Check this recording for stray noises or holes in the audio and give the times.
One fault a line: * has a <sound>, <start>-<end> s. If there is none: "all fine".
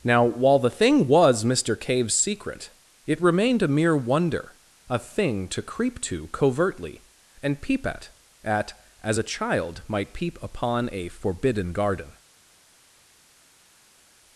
all fine